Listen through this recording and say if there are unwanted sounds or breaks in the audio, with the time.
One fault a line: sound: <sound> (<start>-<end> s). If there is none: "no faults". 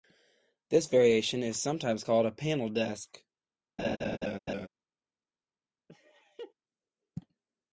sound: laugh (3.8-4.7 s)
sound: laugh (5.9-6.5 s)